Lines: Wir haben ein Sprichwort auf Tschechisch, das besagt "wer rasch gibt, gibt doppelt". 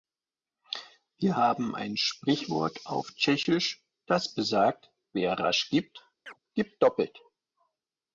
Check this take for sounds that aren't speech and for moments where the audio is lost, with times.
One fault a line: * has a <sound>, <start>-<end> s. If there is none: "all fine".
* has a chirp, 6.3-6.4 s